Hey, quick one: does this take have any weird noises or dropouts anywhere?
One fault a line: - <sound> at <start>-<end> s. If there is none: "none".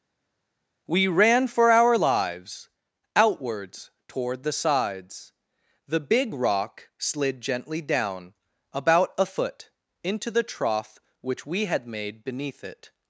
none